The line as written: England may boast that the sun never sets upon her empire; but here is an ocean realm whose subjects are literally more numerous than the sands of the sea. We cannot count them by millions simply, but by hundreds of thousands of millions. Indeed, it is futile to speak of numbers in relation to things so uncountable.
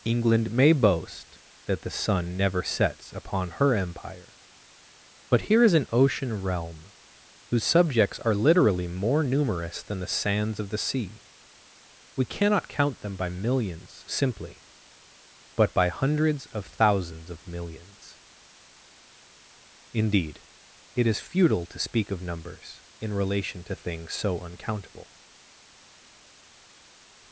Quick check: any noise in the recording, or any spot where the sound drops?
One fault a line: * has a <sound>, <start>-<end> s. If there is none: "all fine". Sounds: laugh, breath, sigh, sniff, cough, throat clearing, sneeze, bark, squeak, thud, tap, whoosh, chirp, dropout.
all fine